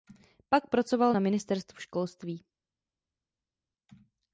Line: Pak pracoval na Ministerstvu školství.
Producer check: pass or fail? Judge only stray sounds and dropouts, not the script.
pass